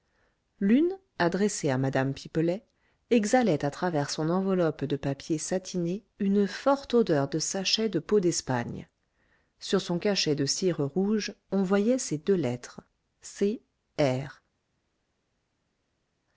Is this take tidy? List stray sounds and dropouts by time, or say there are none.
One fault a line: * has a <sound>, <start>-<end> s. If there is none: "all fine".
all fine